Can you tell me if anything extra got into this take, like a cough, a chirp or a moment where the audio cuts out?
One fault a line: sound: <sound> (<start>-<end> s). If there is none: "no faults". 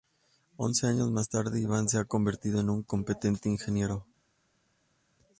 no faults